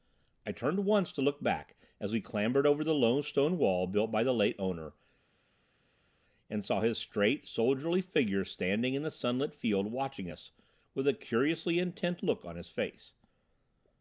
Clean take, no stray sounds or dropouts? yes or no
yes